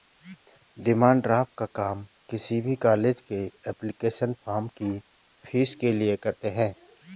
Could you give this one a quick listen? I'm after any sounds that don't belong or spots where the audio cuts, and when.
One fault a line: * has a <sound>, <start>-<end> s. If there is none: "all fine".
all fine